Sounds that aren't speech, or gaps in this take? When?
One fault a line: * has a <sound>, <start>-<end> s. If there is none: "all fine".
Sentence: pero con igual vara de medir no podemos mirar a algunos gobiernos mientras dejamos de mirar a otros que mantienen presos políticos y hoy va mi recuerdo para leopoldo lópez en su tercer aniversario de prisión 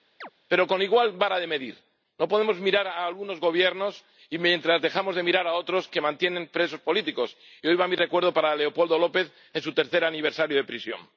* has a chirp, 0.2-0.3 s